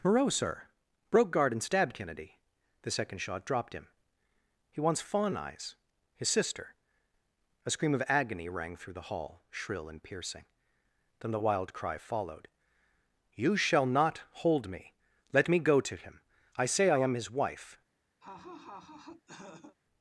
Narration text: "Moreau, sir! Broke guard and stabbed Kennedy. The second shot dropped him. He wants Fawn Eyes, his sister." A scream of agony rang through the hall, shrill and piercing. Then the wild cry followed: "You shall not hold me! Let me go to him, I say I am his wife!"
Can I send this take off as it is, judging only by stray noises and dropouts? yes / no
no